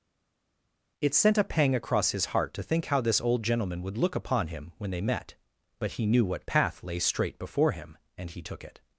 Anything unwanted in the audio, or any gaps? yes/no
no